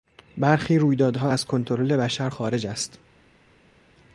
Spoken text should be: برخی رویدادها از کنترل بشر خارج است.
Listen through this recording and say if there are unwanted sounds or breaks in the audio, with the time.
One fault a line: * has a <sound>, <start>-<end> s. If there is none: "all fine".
all fine